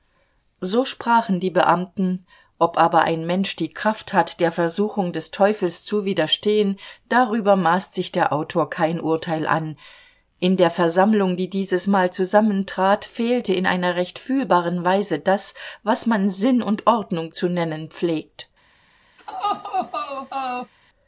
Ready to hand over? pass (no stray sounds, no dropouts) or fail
fail